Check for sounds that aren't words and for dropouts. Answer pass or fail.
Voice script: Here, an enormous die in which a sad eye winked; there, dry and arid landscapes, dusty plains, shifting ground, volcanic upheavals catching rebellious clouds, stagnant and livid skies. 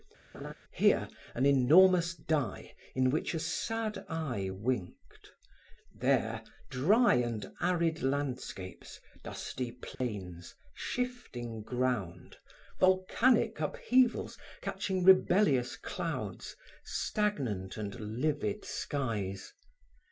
fail